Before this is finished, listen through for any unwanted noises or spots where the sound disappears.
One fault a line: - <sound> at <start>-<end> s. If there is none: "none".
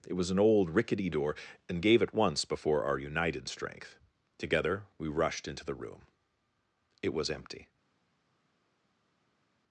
none